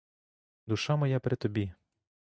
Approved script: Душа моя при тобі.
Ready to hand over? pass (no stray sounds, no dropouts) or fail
pass